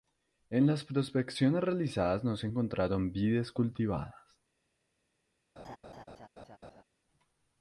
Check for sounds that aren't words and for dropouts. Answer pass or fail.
fail